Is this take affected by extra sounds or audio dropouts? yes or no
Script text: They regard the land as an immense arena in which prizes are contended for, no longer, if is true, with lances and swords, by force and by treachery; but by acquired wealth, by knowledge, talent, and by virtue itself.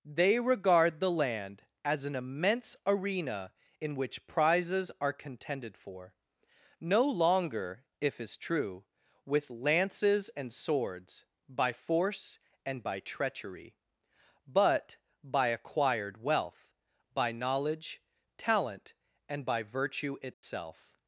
yes